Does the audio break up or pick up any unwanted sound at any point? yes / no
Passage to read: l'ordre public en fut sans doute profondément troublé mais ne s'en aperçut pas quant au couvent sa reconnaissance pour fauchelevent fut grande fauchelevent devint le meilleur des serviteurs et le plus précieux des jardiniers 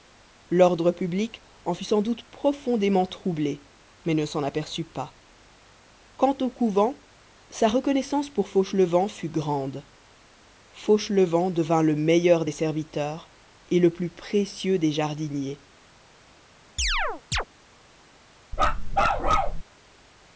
yes